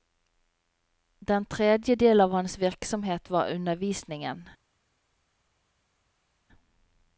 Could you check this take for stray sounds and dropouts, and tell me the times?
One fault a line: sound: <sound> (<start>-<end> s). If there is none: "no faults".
no faults